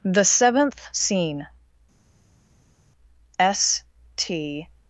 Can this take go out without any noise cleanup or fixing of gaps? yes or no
yes